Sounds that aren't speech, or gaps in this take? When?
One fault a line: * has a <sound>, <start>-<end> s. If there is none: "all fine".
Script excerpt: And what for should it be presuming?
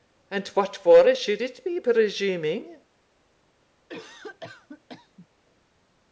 * has a cough, 3.9-5.3 s